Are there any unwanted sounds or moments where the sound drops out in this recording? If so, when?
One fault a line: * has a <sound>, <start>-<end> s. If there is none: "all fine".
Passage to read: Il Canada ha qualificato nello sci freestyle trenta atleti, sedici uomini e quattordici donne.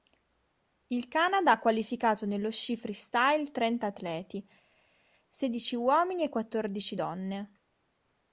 all fine